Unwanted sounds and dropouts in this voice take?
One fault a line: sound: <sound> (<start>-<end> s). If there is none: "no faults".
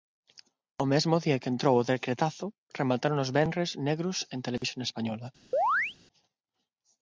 sound: dropout (4.6-4.6 s)
sound: chirp (5.5-6.0 s)